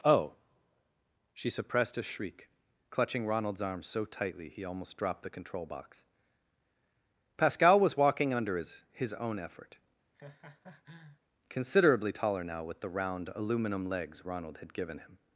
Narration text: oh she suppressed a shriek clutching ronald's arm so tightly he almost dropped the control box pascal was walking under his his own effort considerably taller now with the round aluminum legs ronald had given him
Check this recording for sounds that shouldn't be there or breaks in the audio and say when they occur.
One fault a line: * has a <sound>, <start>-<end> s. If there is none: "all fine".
* has a laugh, 10.1-11.2 s